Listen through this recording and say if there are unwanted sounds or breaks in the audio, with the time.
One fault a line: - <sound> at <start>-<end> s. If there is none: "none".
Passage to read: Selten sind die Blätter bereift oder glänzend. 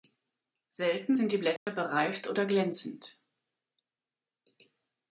- dropout at 1.6-1.7 s